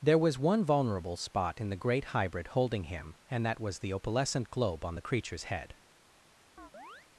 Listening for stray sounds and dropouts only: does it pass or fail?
fail